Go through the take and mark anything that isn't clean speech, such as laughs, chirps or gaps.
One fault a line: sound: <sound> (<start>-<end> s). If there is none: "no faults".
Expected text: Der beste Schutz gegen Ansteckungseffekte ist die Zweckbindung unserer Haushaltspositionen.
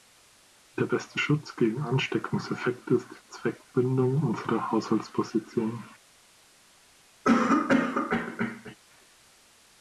sound: cough (7.2-8.8 s)